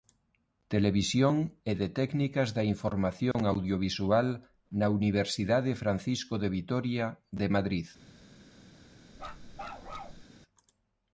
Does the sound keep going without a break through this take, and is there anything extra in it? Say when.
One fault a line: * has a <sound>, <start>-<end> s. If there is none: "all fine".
* has a dropout, 3.3-3.3 s
* has a bark, 9.2-10.2 s